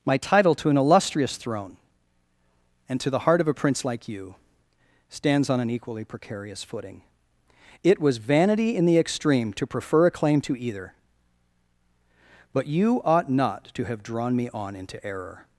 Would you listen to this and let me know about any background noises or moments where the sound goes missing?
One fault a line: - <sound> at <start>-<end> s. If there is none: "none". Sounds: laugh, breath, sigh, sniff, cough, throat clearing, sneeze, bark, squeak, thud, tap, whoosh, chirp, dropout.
none